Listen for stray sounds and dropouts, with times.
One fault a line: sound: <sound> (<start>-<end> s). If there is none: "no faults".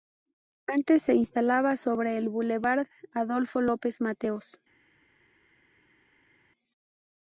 no faults